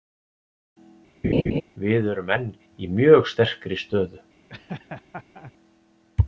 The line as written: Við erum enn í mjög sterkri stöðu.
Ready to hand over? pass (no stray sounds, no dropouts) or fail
fail